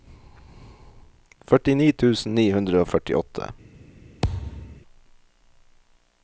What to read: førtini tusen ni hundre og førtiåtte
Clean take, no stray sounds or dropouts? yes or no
no